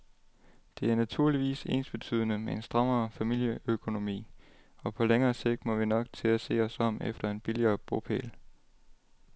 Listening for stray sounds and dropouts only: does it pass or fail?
pass